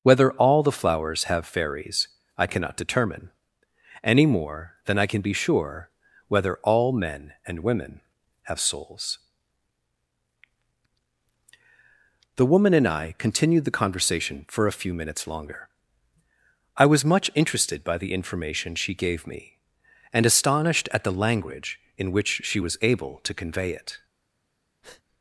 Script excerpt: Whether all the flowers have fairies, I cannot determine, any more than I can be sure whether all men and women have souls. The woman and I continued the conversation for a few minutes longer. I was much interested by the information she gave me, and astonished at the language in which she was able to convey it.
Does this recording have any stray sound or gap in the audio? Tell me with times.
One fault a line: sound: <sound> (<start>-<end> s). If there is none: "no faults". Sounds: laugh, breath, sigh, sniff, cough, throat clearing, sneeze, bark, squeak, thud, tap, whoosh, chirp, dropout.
sound: breath (24.8-25.0 s)